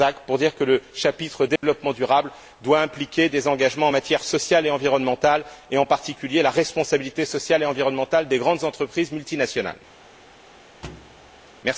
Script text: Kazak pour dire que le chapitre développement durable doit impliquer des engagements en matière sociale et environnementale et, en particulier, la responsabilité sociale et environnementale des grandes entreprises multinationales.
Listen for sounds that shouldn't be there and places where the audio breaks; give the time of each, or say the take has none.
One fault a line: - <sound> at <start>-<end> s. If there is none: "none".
- dropout at 1.6-1.6 s
- thud at 10.8-11.5 s